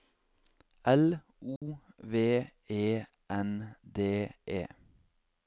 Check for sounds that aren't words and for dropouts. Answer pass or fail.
fail